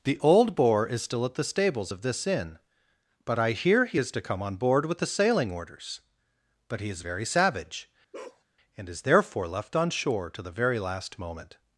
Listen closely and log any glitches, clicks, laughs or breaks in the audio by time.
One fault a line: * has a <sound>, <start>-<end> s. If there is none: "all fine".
* has a bark, 8.1-8.4 s